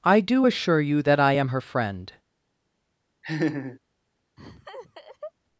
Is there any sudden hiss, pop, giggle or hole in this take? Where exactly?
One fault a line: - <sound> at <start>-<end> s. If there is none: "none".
- laugh at 3.2-3.8 s
- laugh at 4.4-5.3 s